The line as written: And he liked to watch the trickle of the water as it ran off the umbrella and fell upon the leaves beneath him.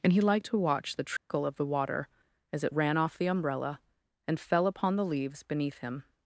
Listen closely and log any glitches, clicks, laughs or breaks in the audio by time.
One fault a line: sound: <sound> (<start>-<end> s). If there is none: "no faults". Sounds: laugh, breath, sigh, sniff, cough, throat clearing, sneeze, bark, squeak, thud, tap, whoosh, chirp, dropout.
sound: dropout (1.2-1.3 s)